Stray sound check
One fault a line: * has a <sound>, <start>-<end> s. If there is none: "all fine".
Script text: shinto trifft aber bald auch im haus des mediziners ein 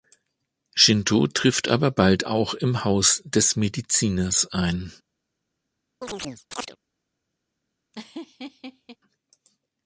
* has a chirp, 6.0-6.8 s
* has a laugh, 7.9-9.0 s